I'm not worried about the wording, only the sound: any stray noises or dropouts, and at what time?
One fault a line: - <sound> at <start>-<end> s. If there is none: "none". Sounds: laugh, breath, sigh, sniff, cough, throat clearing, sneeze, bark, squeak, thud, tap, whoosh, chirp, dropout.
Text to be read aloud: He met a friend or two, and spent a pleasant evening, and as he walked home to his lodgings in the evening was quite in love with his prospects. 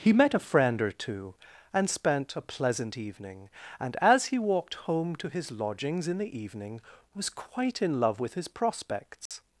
- dropout at 9.3-9.3 s